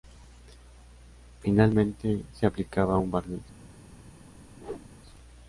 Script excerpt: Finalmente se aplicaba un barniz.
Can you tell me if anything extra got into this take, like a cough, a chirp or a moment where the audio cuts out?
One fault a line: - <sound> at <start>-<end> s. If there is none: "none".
- whoosh at 4.6-4.9 s